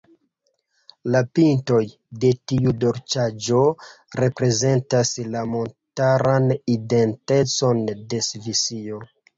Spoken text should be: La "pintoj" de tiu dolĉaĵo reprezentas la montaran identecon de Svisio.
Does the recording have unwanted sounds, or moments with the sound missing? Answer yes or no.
no